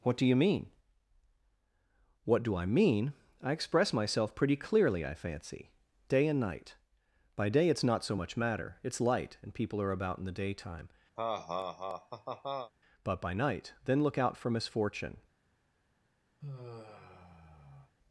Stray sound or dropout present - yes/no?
yes